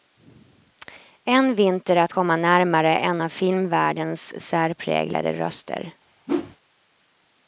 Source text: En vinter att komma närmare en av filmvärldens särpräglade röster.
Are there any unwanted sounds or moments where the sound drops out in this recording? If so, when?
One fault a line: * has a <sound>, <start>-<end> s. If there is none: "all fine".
* has a whoosh, 6.3-6.6 s